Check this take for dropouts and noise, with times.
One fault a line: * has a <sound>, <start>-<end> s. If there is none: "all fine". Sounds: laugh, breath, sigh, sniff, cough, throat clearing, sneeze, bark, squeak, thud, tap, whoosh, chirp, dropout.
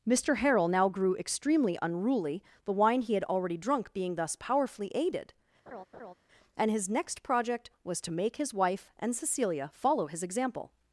* has a laugh, 5.7-6.1 s